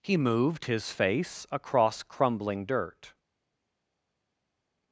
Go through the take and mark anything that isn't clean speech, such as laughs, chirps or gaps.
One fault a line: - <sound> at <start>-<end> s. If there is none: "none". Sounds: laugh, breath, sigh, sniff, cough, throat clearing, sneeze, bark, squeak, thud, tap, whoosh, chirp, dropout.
none